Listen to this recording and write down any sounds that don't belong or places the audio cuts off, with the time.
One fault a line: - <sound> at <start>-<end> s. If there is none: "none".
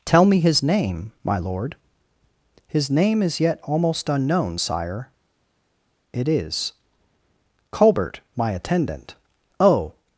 none